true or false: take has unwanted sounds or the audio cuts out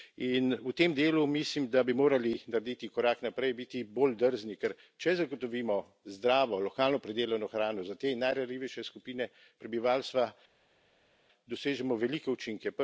false